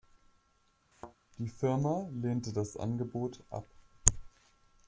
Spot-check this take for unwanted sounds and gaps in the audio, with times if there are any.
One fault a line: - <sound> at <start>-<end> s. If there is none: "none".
- thud at 0.9-1.2 s